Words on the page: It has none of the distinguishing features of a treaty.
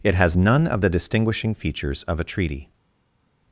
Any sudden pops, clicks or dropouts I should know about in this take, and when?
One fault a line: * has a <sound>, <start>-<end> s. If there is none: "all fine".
all fine